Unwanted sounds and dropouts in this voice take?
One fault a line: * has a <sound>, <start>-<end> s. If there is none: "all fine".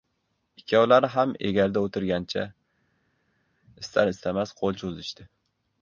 all fine